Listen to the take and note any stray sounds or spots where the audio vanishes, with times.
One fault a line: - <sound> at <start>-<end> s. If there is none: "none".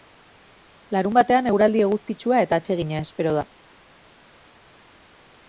none